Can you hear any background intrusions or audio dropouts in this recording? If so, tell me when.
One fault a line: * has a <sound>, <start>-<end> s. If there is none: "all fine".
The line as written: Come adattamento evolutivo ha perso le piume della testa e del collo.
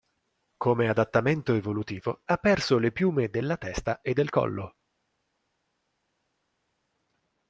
all fine